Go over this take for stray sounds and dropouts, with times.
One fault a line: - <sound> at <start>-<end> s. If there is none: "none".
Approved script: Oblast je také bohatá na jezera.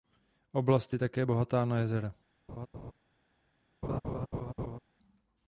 - laugh at 2.5-2.9 s
- laugh at 3.8-4.8 s